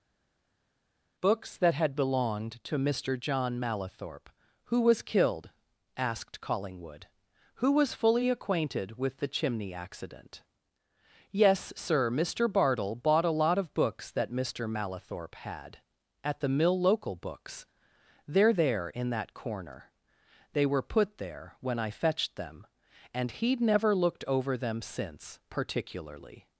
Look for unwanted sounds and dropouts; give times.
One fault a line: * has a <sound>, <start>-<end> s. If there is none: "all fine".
all fine